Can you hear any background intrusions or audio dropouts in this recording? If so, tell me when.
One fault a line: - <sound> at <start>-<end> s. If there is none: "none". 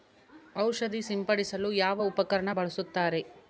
none